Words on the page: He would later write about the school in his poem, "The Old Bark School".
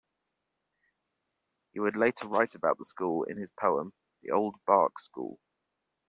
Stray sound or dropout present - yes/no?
no